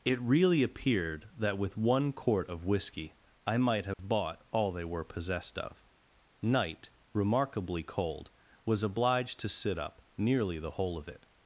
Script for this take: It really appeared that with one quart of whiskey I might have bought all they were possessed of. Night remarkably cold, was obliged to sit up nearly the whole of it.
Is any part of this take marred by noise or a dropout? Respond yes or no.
yes